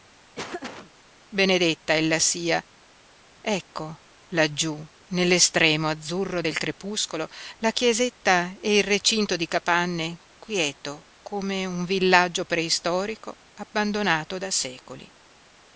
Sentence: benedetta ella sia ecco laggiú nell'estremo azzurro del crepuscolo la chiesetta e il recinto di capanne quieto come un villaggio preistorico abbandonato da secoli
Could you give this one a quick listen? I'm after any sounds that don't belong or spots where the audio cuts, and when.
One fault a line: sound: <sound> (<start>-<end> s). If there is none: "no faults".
sound: laugh (0.3-0.9 s)